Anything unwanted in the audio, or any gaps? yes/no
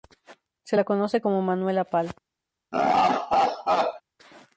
yes